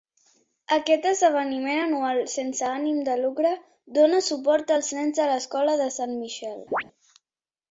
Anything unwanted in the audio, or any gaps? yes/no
yes